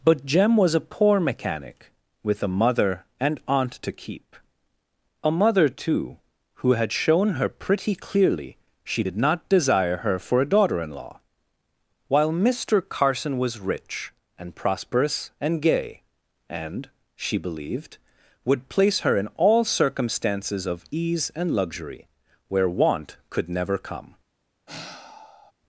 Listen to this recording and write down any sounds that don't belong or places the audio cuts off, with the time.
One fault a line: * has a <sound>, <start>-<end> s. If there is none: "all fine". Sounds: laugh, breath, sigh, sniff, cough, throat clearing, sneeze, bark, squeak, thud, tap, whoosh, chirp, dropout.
* has a sigh, 24.7-25.5 s